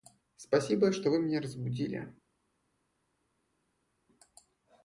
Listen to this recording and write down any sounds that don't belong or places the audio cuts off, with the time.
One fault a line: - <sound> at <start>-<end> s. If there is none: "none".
none